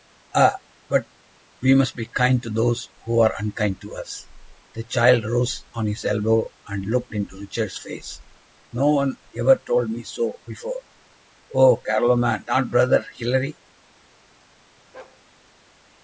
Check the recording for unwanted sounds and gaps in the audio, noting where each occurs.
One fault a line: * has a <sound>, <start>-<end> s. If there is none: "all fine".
* has a bark, 14.9-15.2 s